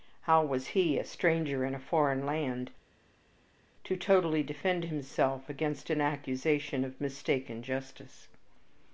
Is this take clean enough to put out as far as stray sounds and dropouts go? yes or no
yes